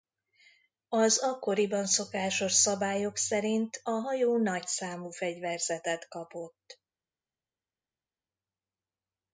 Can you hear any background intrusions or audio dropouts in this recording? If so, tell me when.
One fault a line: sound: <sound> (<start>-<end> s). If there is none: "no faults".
no faults